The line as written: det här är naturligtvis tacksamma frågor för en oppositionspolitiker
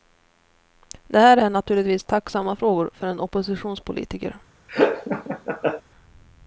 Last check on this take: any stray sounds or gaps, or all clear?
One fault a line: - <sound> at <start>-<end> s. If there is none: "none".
- laugh at 4.7-5.8 s